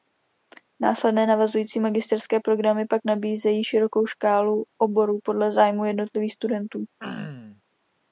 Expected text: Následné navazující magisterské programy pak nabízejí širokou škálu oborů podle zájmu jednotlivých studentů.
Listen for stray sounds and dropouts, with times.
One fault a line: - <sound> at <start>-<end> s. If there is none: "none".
- throat clearing at 7.0-7.6 s